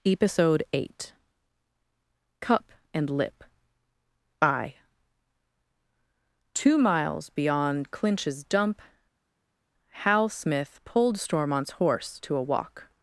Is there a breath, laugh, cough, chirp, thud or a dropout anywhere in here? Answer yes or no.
no